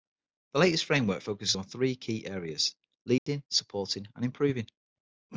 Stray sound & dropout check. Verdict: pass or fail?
fail